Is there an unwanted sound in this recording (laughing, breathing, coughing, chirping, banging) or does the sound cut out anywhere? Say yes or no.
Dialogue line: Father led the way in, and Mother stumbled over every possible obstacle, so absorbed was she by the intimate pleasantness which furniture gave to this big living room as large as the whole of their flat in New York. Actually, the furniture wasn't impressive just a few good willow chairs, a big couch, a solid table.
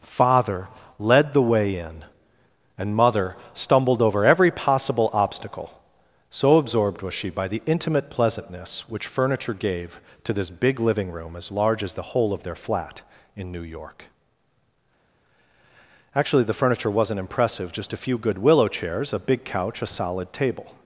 no